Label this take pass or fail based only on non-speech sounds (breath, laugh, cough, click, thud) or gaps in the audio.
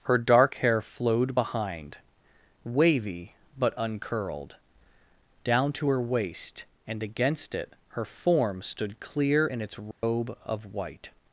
fail